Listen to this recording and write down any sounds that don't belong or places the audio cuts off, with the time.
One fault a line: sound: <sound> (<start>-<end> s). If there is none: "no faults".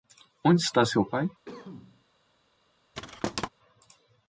sound: cough (1.4-2.1 s)
sound: thud (2.9-3.5 s)